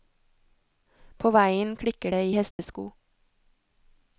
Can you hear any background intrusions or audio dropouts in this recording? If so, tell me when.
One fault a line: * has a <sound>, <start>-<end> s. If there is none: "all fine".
* has a dropout, 2.5-2.6 s